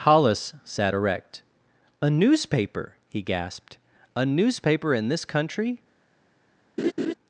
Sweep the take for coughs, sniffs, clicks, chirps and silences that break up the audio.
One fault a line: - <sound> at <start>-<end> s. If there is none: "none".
- laugh at 6.8-7.1 s